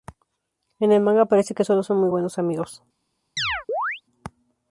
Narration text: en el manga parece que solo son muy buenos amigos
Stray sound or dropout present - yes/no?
yes